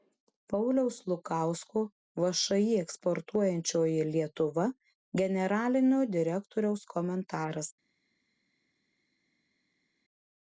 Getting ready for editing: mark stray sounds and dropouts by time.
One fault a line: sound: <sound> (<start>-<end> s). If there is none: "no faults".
no faults